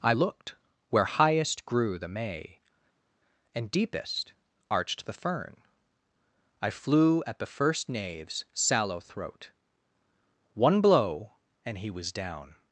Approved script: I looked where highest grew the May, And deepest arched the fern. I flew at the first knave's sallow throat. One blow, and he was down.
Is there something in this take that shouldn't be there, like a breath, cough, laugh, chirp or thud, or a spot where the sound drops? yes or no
no